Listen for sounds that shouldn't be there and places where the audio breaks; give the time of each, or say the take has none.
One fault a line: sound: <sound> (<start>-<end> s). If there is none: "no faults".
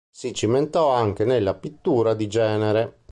no faults